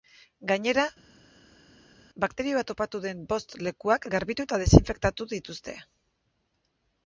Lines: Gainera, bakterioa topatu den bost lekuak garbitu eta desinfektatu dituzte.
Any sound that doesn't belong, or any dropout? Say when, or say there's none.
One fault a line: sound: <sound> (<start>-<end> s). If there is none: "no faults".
no faults